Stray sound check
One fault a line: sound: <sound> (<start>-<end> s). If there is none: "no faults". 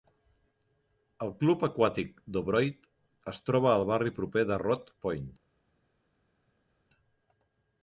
no faults